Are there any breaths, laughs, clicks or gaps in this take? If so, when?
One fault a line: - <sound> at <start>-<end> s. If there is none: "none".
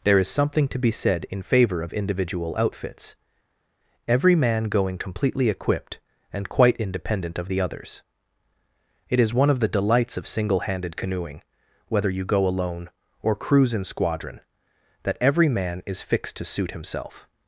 none